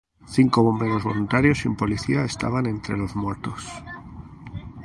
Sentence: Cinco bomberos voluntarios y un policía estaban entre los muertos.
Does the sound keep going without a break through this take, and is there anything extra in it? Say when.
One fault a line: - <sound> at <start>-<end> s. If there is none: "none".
none